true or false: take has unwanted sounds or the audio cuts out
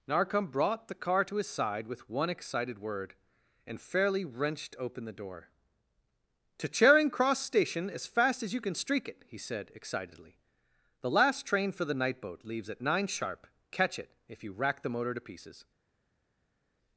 false